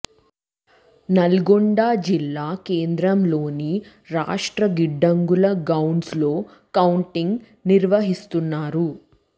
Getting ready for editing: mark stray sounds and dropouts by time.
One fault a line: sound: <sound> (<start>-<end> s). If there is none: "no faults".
no faults